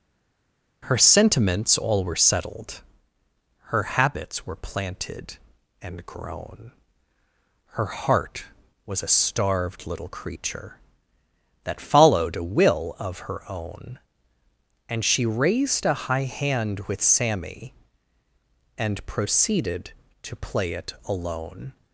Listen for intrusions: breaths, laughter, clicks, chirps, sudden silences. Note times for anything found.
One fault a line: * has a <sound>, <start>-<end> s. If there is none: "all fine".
all fine